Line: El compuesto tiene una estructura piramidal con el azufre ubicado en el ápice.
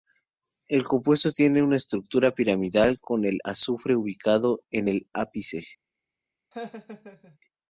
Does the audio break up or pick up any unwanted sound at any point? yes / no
yes